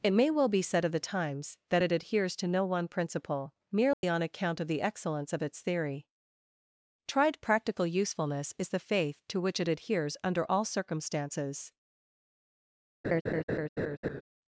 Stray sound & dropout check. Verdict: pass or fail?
fail